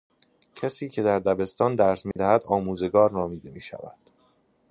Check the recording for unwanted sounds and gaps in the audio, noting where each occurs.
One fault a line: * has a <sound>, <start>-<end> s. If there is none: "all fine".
* has a dropout, 2.1-2.2 s